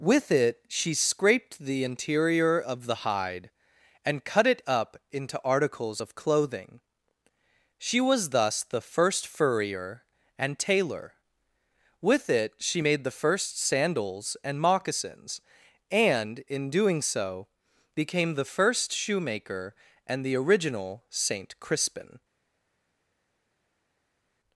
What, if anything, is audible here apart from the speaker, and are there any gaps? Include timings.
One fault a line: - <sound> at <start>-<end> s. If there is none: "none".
none